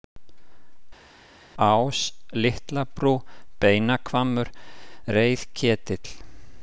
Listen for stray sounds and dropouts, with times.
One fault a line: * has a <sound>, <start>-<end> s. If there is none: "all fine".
all fine